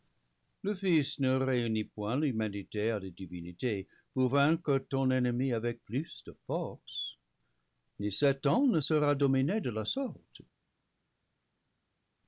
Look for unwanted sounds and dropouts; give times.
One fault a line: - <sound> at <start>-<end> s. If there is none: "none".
none